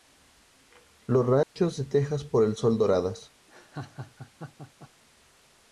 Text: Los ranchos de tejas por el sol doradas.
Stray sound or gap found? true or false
true